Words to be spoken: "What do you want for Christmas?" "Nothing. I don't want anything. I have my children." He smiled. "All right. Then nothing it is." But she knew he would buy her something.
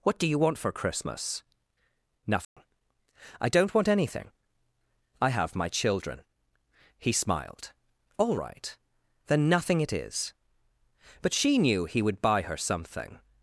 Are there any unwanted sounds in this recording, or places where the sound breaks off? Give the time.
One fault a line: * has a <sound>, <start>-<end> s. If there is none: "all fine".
* has a dropout, 2.4-2.6 s